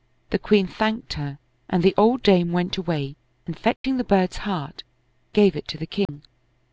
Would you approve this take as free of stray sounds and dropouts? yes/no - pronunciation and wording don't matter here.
no